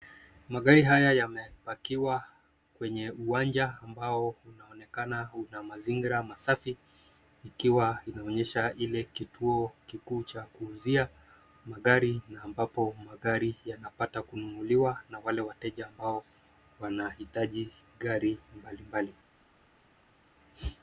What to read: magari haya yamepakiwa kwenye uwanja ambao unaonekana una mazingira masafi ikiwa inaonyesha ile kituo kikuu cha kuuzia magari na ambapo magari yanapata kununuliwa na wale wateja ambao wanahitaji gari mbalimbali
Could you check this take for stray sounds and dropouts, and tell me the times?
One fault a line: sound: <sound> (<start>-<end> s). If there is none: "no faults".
no faults